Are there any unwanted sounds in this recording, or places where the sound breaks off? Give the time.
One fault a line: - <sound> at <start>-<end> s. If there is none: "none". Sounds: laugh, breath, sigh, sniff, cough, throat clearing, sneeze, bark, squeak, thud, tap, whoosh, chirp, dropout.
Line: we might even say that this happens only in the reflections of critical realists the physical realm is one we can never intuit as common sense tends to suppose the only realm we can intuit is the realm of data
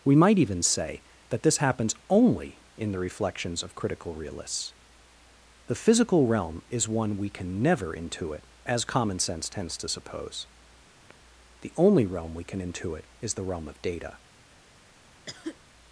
- sigh at 11.0-11.1 s
- cough at 15.3-15.6 s